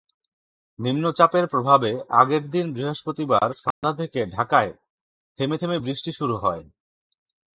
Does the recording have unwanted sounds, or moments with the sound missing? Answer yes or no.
yes